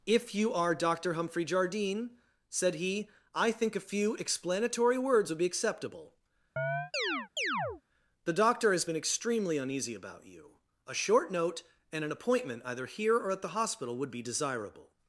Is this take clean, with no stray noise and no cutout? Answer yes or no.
no